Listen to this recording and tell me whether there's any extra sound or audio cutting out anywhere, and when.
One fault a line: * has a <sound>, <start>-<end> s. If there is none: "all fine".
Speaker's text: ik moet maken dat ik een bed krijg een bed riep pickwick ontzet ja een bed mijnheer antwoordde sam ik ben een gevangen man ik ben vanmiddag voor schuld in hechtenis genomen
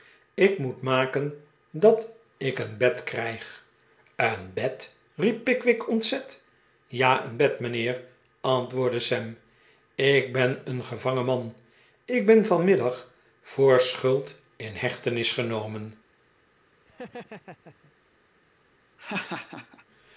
* has a laugh, 16.9-17.9 s
* has a laugh, 19.0-19.8 s